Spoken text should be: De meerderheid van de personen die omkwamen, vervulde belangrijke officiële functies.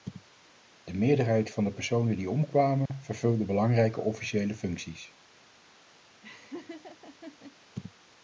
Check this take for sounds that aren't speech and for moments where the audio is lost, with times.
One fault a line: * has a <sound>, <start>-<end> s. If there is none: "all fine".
* has a dropout, 2.9-2.9 s
* has a laugh, 6.2-7.6 s